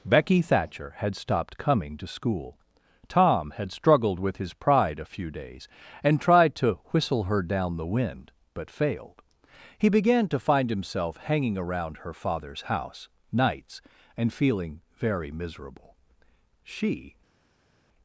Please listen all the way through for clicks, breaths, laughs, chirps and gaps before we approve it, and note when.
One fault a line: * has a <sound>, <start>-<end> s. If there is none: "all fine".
all fine